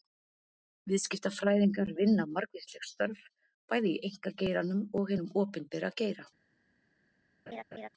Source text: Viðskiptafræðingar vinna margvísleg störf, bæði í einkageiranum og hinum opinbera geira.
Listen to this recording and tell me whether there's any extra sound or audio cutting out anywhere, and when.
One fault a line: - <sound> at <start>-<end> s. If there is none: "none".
- laugh at 7.5-7.9 s